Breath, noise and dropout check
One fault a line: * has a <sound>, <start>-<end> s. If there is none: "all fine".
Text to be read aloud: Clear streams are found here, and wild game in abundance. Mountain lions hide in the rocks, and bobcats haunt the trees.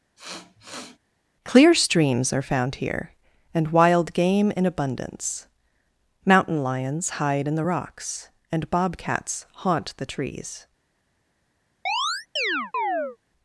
* has a sniff, 0.2-1.0 s
* has a chirp, 11.9-13.2 s